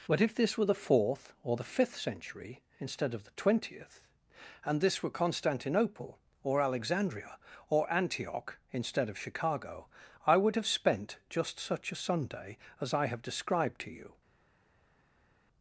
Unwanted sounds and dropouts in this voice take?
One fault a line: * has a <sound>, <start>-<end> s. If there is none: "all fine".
all fine